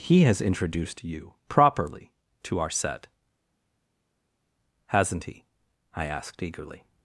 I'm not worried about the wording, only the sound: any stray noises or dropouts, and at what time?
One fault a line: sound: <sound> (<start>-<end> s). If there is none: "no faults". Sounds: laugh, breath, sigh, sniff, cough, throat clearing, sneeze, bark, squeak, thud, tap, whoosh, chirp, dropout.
no faults